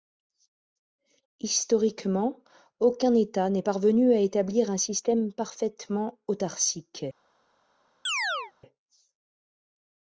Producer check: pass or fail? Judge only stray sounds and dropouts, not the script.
fail